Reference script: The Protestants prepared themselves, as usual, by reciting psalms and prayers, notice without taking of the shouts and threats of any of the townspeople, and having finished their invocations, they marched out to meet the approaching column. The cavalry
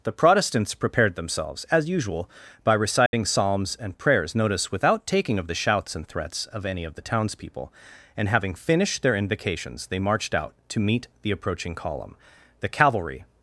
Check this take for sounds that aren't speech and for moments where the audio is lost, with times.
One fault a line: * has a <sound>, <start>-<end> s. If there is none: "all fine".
* has a dropout, 3.1-3.1 s